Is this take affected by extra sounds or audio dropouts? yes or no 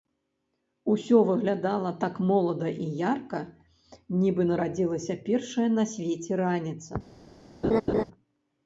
yes